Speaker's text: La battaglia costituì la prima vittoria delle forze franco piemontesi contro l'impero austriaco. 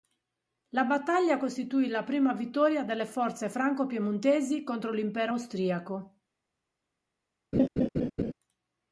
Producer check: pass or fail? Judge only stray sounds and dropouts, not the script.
fail